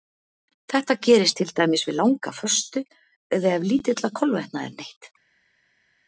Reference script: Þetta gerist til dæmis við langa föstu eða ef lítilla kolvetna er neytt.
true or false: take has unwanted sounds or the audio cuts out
false